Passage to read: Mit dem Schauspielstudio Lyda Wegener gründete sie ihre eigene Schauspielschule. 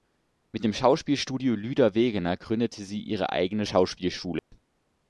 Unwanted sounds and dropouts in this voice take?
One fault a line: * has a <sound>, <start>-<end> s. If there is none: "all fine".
* has a dropout, 4.4-4.5 s